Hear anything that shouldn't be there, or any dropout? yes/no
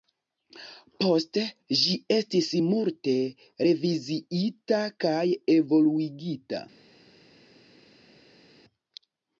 no